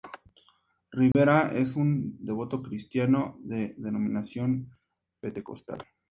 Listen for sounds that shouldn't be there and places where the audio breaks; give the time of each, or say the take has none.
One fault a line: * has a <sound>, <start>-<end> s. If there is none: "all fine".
* has a dropout, 1.1-1.1 s